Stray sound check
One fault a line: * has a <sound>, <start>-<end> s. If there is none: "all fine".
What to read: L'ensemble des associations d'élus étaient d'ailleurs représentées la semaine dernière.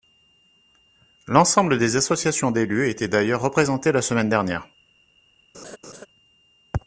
* has a laugh, 5.5-6.1 s